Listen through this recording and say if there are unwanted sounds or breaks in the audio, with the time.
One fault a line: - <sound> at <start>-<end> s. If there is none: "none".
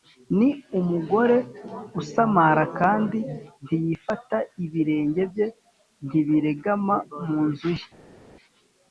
none